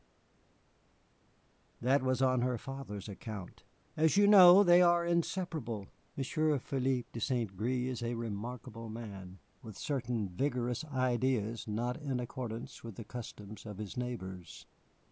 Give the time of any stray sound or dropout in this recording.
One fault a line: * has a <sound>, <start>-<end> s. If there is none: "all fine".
all fine